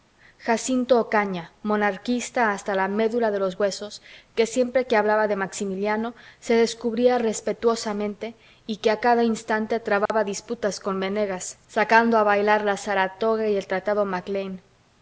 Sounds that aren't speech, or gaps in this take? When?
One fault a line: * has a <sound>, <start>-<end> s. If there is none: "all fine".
* has a dropout, 10.1-10.1 s